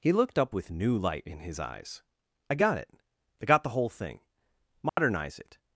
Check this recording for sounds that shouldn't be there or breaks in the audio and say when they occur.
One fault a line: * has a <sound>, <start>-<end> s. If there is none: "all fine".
* has a dropout, 4.9-5.0 s